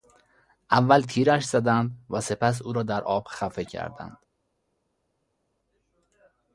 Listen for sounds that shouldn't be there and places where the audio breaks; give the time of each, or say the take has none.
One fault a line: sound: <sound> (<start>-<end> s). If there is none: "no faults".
no faults